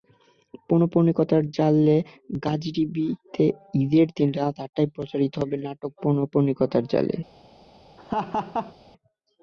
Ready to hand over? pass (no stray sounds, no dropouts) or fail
fail